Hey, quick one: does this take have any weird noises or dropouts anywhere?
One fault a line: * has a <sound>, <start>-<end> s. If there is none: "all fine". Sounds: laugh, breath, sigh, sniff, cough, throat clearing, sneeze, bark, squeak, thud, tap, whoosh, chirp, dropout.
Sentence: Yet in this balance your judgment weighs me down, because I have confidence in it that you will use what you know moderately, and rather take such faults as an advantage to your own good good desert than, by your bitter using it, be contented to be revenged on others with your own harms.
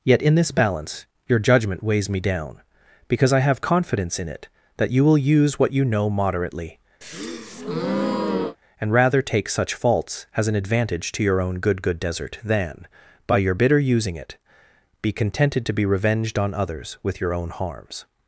* has a breath, 7.0-8.6 s